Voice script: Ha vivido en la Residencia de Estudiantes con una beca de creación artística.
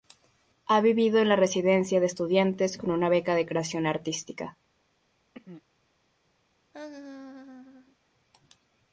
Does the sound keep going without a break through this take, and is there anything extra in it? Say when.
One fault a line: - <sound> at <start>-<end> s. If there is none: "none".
- throat clearing at 5.3-5.6 s
- laugh at 6.7-8.0 s